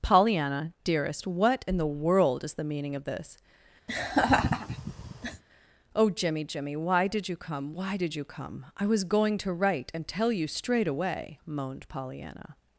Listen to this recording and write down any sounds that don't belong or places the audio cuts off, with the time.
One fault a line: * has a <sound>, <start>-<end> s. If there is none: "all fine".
* has a laugh, 3.9-5.4 s